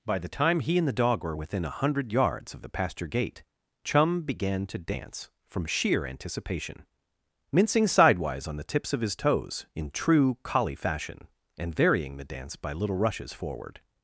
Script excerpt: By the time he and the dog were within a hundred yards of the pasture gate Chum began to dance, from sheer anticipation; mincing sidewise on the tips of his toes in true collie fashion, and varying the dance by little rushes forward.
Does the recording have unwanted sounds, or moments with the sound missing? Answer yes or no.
no